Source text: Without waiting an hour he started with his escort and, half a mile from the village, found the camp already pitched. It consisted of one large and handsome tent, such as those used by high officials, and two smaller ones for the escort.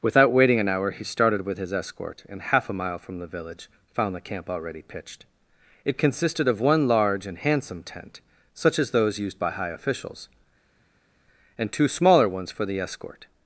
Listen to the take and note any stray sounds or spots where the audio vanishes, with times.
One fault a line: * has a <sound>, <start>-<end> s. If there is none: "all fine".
all fine